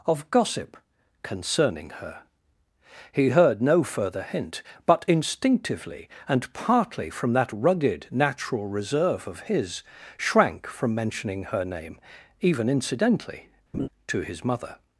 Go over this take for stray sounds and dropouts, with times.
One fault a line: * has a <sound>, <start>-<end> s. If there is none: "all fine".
* has a laugh, 13.7-13.9 s